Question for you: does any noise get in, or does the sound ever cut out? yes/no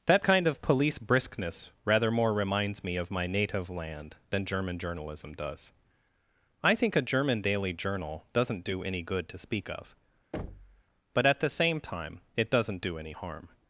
yes